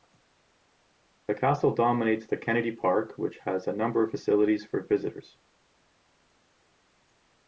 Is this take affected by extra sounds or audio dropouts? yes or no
no